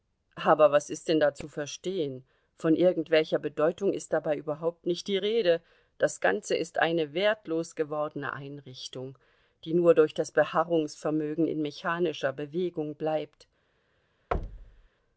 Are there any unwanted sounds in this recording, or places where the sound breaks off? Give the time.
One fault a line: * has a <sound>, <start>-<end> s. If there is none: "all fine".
* has a thud, 14.3-14.9 s